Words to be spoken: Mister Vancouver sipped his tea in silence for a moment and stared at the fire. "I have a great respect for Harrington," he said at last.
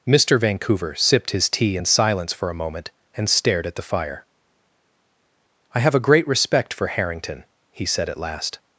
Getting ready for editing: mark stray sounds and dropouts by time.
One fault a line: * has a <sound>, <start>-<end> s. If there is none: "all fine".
all fine